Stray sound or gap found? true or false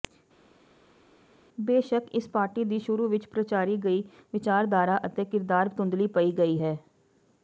false